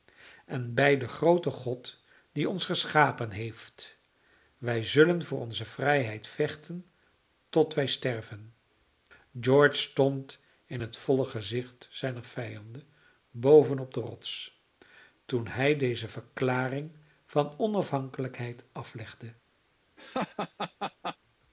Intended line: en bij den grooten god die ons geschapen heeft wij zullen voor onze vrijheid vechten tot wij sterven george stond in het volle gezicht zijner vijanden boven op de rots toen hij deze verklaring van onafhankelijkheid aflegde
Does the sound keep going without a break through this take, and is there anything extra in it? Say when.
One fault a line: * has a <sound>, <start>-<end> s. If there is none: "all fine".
* has a laugh, 20.0-21.2 s